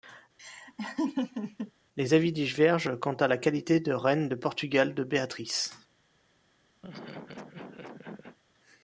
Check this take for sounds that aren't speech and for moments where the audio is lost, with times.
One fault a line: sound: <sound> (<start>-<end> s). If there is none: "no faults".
sound: laugh (0.4-1.7 s)
sound: laugh (6.8-8.4 s)